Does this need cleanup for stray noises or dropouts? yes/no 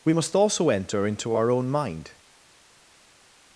no